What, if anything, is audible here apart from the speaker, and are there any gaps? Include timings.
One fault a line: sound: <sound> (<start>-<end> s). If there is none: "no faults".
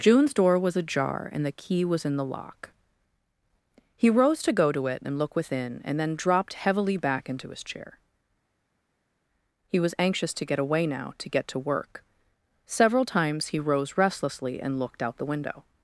no faults